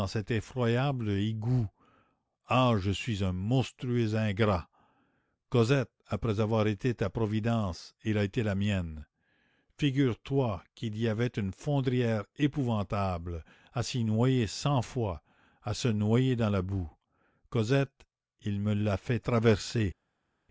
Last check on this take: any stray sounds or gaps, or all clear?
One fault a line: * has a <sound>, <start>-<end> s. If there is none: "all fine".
all fine